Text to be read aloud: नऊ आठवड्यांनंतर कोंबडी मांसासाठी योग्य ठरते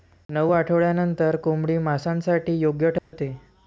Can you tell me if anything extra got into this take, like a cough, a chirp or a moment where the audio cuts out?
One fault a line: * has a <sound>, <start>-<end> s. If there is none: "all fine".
* has a dropout, 3.0-3.1 s